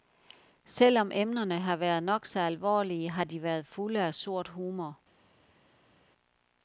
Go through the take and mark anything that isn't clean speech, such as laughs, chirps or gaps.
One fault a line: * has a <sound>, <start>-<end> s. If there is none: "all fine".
all fine